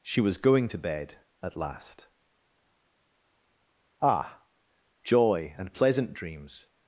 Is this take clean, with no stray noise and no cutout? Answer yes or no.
yes